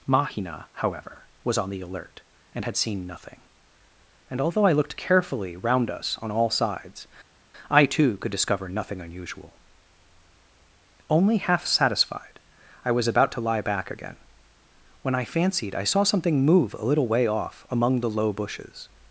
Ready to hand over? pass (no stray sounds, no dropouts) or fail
pass